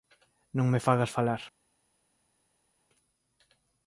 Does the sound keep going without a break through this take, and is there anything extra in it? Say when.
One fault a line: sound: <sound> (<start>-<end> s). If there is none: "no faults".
no faults